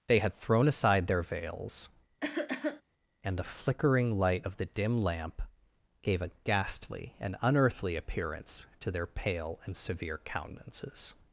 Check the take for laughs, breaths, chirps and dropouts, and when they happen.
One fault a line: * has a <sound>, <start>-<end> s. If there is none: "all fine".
* has a cough, 2.2-2.8 s